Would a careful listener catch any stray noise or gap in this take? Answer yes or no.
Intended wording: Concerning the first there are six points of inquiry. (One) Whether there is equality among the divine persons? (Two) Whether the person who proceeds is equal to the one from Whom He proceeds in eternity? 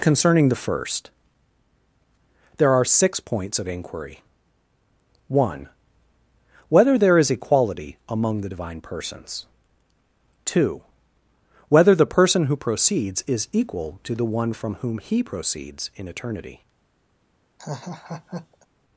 yes